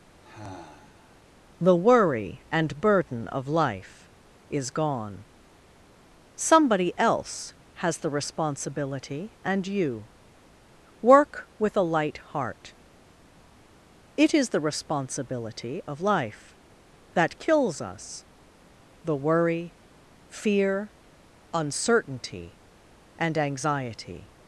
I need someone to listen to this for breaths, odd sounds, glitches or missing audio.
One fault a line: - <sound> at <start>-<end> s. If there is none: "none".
- sigh at 0.2-1.2 s